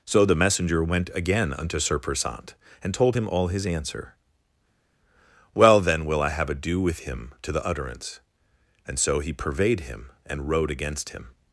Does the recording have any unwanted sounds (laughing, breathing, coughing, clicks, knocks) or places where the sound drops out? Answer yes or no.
no